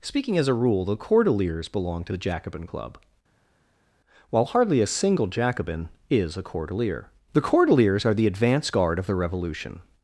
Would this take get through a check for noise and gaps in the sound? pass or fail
pass